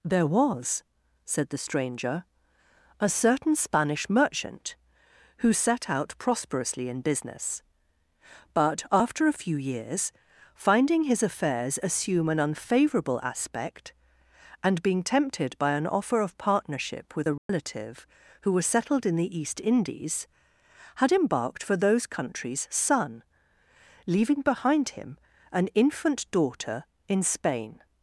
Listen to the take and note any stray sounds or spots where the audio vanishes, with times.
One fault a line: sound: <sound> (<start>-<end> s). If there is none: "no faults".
sound: dropout (17.4-17.5 s)